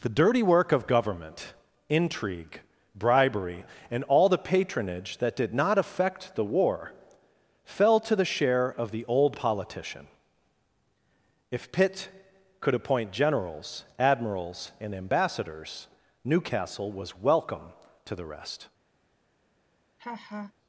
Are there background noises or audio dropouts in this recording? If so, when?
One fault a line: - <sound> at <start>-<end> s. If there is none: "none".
- laugh at 20.0-20.5 s